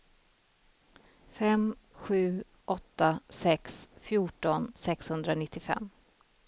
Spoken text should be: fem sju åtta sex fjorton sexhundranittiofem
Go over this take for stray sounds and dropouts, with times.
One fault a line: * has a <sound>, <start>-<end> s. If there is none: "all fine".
all fine